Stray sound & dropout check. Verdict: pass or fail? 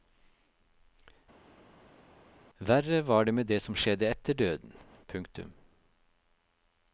pass